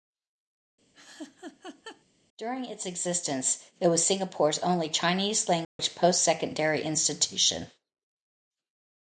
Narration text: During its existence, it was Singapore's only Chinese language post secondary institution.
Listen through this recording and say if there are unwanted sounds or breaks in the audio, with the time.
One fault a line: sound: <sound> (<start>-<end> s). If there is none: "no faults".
sound: laugh (0.9-2.0 s)
sound: dropout (5.6-5.8 s)